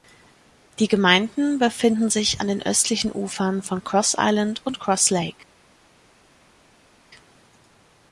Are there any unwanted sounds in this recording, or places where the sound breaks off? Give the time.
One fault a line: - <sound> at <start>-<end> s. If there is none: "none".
none